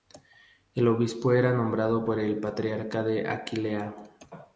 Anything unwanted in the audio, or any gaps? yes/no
no